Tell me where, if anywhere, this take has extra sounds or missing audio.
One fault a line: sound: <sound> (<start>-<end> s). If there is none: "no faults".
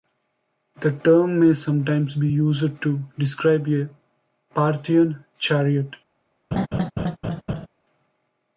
sound: laugh (6.5-7.7 s)